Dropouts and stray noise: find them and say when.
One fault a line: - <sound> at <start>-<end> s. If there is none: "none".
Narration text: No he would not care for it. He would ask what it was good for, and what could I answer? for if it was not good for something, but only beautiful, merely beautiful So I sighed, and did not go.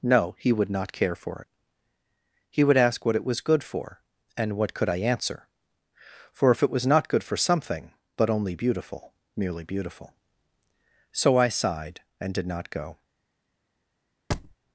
- thud at 14.3-14.6 s